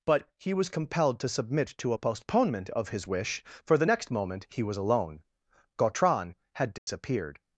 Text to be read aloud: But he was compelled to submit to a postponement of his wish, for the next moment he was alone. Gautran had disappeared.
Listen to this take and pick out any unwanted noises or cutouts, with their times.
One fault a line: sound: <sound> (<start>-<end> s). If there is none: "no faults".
sound: dropout (6.8-6.9 s)